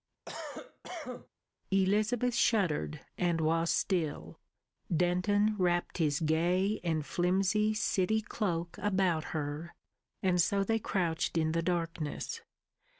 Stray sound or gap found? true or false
true